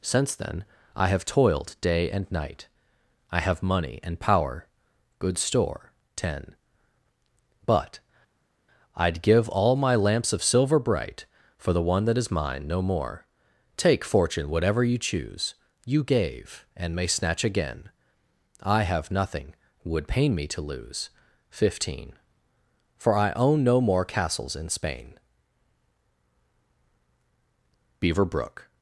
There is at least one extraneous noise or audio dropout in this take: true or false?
false